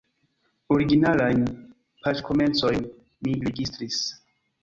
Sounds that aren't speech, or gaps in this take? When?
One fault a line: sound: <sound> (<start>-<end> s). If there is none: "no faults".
no faults